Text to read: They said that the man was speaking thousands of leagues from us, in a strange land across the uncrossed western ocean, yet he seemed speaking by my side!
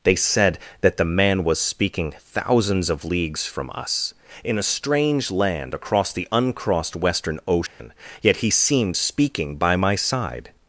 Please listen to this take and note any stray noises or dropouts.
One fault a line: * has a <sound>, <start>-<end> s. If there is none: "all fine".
* has a dropout, 7.7-7.8 s